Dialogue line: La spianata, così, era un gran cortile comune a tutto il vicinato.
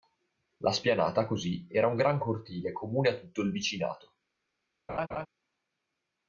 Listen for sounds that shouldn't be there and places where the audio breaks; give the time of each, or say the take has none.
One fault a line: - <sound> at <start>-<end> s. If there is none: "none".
- laugh at 4.9-5.3 s